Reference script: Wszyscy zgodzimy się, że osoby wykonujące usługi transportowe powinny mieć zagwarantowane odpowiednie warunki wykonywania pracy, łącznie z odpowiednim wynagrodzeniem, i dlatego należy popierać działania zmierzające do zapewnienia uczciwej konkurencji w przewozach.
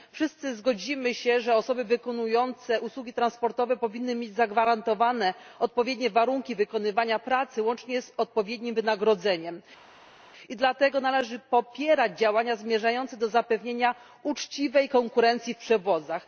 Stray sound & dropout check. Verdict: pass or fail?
pass